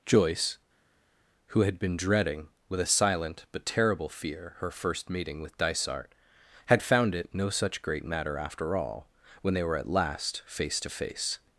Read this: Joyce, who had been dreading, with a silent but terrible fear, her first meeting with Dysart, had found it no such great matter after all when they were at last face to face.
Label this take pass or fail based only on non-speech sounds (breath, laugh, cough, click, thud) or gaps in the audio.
pass